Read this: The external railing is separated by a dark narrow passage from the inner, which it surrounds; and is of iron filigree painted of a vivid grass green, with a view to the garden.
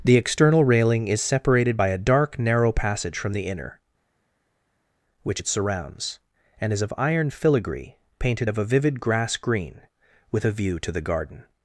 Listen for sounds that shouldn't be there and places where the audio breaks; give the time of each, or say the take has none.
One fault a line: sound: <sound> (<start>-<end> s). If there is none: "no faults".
no faults